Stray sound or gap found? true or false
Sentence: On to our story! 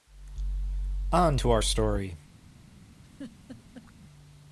true